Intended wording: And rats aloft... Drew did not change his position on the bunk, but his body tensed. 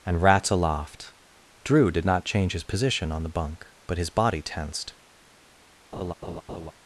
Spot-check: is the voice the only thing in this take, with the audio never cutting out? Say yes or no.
no